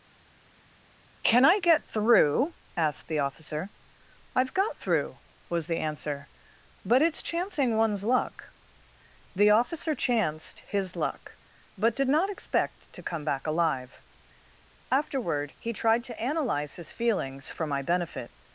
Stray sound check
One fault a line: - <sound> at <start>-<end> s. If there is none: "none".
none